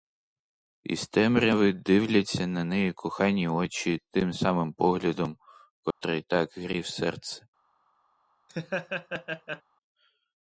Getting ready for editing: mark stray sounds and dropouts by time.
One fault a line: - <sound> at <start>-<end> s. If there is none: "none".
- dropout at 5.9-6.0 s
- laugh at 8.5-9.6 s